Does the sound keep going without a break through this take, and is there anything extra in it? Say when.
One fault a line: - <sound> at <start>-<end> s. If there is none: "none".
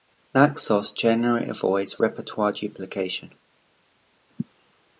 none